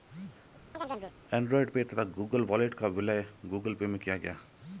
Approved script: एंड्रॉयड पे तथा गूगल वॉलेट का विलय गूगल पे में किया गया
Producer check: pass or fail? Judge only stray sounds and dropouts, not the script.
fail